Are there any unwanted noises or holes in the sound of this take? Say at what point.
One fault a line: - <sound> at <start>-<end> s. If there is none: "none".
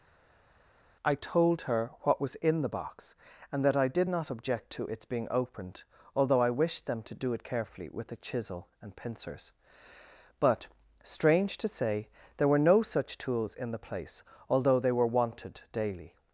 none